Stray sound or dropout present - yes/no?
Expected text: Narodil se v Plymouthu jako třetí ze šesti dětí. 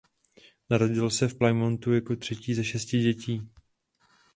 no